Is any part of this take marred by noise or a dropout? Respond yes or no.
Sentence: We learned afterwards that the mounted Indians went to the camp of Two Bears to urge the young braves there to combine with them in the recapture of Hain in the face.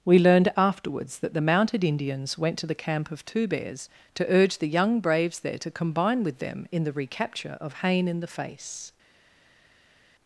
no